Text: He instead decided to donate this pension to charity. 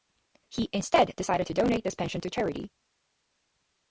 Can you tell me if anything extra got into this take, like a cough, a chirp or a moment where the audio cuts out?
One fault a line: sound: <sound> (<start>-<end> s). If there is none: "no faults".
no faults